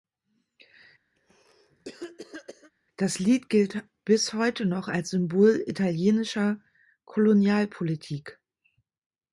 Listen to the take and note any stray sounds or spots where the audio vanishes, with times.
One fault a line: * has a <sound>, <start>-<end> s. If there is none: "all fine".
* has a cough, 1.2-2.7 s